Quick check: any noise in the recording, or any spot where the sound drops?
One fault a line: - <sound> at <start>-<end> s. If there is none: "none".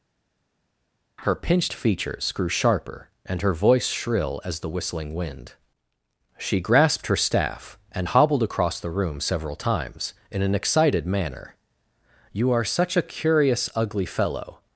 none